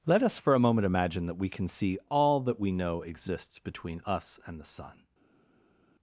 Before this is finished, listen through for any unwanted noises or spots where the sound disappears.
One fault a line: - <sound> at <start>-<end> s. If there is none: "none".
none